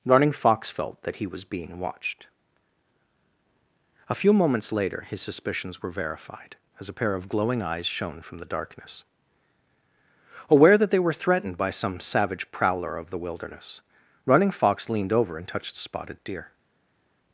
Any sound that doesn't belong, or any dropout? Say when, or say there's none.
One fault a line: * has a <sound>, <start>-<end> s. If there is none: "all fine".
all fine